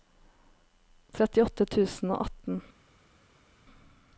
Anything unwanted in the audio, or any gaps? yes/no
no